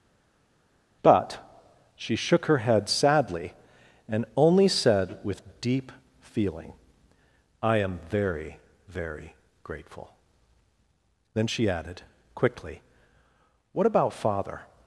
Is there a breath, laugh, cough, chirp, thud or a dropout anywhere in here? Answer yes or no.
no